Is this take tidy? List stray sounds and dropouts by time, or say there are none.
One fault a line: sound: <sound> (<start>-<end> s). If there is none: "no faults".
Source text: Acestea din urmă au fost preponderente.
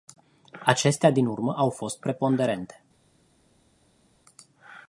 no faults